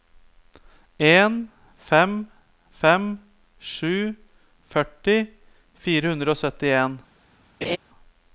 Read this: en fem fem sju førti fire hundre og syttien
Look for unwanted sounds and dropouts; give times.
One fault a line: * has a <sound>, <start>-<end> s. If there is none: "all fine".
* has a laugh, 7.6-7.8 s